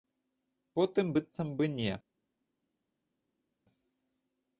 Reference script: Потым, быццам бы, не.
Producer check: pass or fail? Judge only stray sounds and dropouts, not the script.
pass